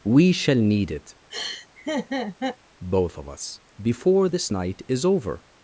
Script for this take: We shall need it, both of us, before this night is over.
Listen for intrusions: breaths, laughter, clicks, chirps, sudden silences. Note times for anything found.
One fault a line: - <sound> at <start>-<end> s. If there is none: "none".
- laugh at 1.3-2.6 s